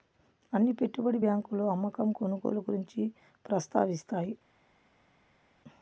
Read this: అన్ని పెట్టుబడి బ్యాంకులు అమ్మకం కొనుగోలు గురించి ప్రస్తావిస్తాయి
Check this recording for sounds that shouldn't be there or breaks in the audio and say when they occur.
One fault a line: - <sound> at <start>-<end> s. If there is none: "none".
none